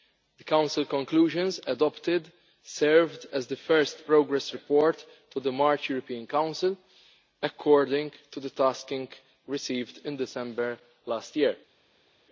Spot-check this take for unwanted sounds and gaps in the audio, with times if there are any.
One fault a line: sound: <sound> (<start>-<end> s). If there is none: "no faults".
no faults